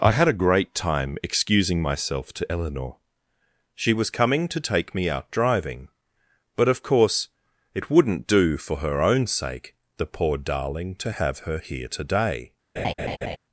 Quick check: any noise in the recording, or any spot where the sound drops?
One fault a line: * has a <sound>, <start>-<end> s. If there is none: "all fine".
* has a laugh, 12.8-13.4 s